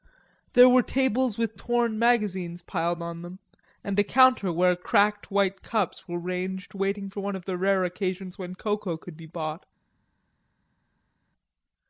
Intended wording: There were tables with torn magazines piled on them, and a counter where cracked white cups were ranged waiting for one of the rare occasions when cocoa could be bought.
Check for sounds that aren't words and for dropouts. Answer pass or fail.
pass